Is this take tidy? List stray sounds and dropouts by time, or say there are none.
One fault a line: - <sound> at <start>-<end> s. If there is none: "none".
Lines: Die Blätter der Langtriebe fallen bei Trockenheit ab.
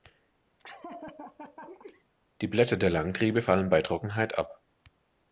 - laugh at 0.6-2.0 s